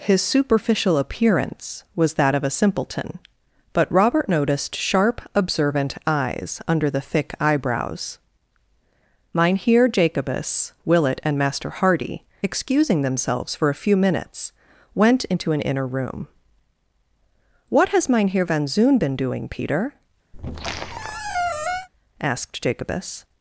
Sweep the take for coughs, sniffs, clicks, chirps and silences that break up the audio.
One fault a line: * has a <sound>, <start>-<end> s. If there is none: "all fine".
* has a squeak, 20.3-21.9 s